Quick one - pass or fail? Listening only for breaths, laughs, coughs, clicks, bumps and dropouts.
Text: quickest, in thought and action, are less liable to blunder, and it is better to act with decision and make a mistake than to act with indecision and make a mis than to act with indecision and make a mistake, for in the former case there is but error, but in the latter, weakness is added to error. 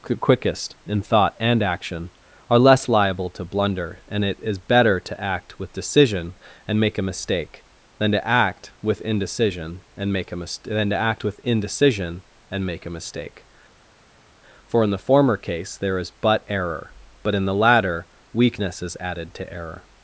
pass